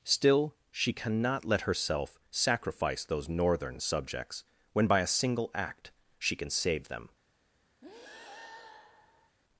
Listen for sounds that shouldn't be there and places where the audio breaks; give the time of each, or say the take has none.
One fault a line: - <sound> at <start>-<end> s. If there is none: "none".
- breath at 7.8-9.4 s